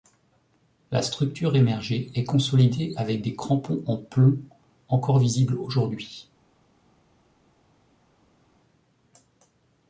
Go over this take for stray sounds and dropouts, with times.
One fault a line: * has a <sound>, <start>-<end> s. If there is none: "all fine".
all fine